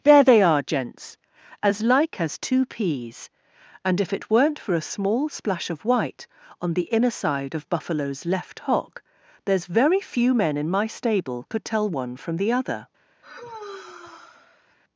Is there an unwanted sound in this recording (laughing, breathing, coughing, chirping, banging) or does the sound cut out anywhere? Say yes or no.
yes